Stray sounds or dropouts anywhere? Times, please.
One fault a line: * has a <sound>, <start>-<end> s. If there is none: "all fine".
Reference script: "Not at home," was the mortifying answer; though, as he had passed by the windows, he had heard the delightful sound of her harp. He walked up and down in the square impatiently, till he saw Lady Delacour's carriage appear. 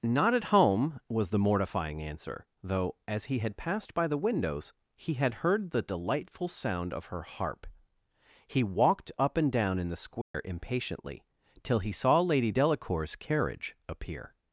* has a dropout, 10.2-10.3 s